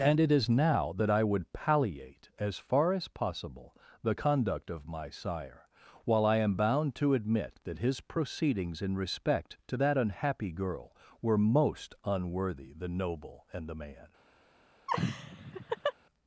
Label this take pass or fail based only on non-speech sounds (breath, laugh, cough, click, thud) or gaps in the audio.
fail